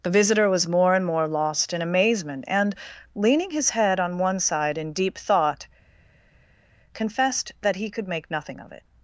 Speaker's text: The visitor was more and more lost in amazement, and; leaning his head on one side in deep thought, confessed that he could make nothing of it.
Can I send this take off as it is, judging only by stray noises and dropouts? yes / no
yes